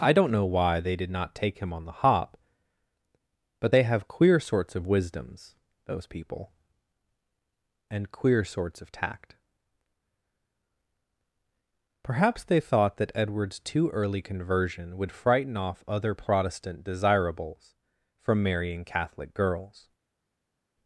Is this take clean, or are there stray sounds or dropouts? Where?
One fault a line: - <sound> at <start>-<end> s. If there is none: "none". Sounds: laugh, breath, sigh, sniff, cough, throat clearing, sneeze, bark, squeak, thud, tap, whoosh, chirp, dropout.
none